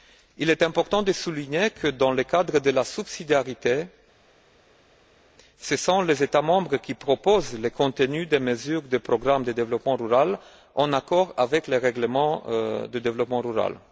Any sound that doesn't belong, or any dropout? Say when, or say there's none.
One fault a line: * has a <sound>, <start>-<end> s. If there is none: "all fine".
all fine